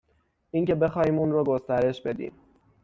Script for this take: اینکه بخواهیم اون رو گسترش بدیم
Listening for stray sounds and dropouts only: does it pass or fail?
pass